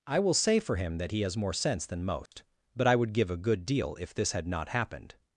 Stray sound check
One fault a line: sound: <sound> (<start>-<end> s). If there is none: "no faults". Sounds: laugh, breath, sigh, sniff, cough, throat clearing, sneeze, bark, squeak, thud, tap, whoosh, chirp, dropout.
sound: dropout (2.3-2.3 s)